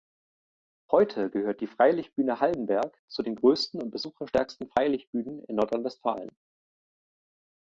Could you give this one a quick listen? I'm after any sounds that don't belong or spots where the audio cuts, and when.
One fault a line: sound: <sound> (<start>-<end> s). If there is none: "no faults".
no faults